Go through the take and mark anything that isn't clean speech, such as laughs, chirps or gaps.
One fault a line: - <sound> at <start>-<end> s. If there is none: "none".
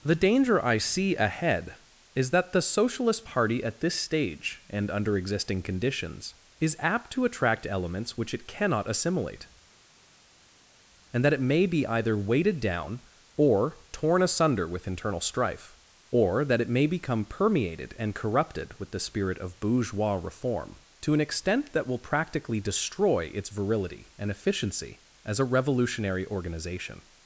none